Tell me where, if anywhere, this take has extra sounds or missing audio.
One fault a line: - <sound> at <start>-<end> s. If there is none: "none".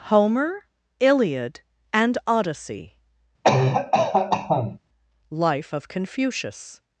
- cough at 3.4-4.8 s